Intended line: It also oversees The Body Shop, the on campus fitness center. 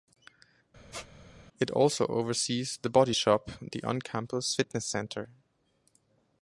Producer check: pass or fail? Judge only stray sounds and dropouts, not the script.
fail